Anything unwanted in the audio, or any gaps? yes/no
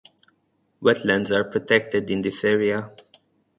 no